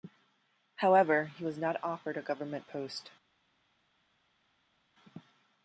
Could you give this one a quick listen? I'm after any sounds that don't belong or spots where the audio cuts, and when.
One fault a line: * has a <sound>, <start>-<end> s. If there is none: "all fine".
all fine